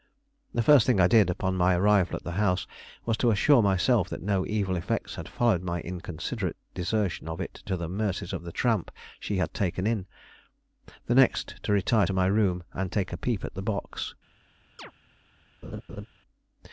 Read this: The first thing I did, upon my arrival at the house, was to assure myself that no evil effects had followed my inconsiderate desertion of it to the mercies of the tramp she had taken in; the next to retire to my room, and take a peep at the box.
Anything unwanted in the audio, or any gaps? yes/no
yes